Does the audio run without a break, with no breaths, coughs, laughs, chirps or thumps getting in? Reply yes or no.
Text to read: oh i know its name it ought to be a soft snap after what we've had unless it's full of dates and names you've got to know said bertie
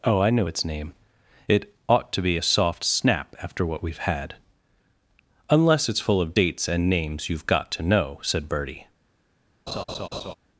no